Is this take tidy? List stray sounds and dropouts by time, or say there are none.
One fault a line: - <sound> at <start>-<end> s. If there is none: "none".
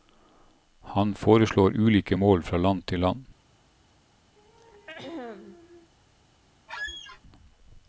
- throat clearing at 4.4-5.9 s
- squeak at 6.7-7.2 s